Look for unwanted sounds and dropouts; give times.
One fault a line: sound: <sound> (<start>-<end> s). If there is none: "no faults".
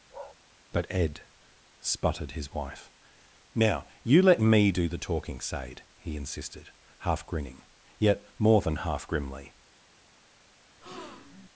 sound: bark (0.1-0.4 s)
sound: breath (10.8-11.5 s)